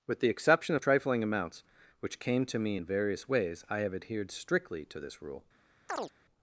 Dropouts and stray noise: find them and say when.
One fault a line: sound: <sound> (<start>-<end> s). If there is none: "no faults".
sound: chirp (5.9-6.1 s)